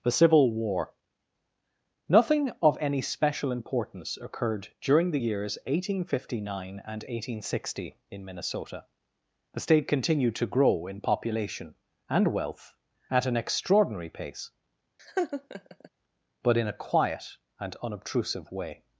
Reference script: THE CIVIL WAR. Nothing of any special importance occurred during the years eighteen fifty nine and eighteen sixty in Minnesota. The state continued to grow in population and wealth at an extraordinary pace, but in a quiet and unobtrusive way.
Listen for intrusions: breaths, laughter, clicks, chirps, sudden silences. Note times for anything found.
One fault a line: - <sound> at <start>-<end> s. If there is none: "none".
- laugh at 15.0-15.9 s